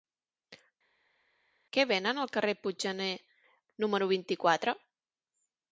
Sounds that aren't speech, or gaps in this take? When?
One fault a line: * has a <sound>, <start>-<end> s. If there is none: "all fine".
all fine